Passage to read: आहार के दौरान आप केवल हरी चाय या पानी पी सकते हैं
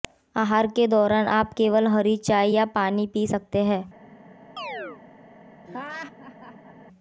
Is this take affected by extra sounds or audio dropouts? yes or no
yes